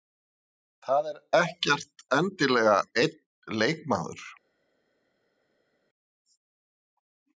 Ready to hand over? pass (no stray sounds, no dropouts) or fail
pass